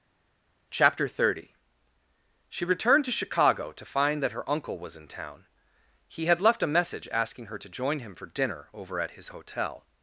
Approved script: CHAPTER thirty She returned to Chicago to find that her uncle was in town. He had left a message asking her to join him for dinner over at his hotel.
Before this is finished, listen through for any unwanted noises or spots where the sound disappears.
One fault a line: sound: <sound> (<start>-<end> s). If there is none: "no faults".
no faults